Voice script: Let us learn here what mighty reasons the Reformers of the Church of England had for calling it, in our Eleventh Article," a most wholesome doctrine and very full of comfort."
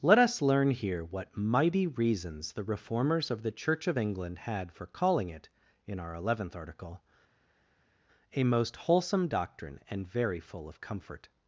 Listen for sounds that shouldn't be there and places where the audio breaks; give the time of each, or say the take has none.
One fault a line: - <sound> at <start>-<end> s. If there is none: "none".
none